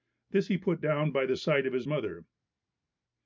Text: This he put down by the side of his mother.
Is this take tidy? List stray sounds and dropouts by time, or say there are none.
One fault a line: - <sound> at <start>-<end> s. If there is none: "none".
none